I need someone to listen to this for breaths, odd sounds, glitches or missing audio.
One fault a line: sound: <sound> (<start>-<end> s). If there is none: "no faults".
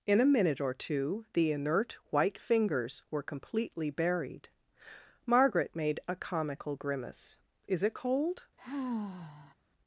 sound: sigh (8.6-9.5 s)